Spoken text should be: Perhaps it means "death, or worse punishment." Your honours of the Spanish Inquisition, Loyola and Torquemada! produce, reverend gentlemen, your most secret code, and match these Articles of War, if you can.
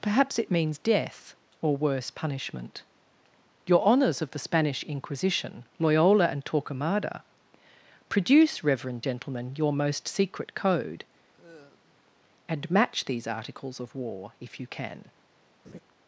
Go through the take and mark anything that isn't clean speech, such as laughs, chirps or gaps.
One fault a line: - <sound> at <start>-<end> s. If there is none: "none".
- sigh at 11.3-12.1 s
- laugh at 15.6-15.8 s